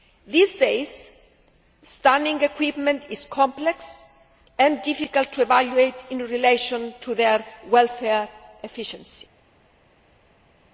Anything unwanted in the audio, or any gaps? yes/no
no